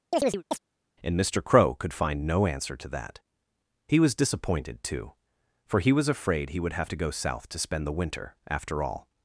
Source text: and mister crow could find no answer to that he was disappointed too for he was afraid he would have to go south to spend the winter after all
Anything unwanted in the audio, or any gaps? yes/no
yes